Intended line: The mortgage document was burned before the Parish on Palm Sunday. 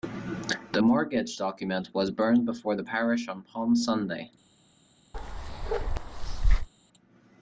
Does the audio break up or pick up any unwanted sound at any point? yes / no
yes